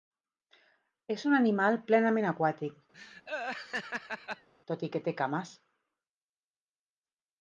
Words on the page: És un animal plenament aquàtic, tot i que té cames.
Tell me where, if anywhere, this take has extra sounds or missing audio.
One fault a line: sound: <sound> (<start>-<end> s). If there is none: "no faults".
sound: laugh (2.9-4.5 s)